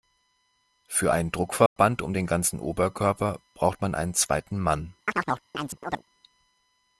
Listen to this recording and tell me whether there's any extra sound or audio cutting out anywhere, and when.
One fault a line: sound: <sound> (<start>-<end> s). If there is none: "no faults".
sound: dropout (1.7-1.8 s)
sound: chirp (5.1-6.0 s)